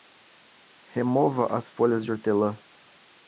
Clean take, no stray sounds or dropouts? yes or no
yes